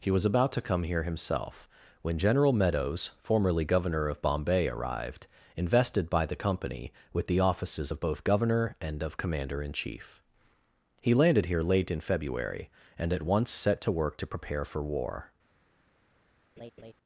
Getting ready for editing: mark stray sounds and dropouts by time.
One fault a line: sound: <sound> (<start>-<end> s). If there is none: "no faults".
sound: laugh (16.6-16.9 s)